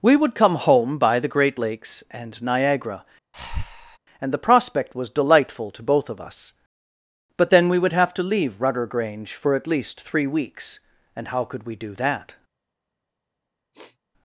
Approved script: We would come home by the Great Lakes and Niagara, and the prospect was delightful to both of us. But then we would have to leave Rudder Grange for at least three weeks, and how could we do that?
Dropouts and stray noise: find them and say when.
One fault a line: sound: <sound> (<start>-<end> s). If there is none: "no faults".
sound: breath (3.3-4.0 s)
sound: sniff (13.7-14.0 s)